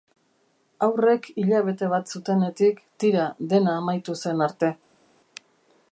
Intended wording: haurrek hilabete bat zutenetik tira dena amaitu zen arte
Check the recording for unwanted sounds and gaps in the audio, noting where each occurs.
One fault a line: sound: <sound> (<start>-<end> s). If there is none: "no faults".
no faults